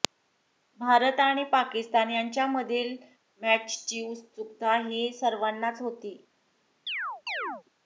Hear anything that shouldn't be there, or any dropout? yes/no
yes